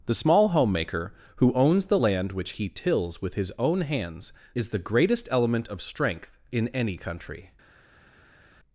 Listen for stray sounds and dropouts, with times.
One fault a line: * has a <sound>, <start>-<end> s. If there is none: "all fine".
all fine